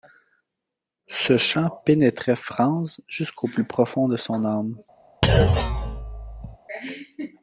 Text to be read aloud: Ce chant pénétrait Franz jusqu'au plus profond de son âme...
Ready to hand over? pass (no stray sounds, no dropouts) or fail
fail